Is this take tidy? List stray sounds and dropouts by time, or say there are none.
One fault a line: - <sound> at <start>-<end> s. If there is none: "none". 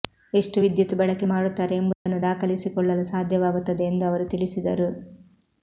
- dropout at 1.9-2.1 s